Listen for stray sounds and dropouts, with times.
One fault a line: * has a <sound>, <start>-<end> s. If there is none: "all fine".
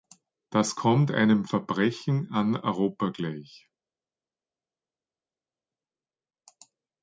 all fine